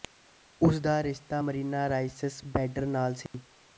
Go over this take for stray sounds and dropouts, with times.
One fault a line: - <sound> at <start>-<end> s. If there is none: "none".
- dropout at 3.3-3.3 s